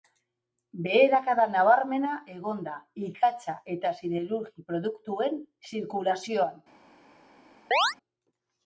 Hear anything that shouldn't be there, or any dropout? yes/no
yes